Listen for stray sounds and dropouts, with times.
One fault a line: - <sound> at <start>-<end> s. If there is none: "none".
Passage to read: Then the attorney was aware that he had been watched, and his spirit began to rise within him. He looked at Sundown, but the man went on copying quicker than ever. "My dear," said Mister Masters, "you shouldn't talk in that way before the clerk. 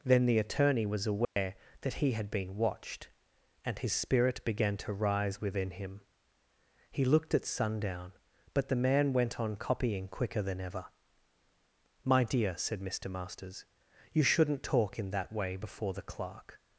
- dropout at 1.2-1.4 s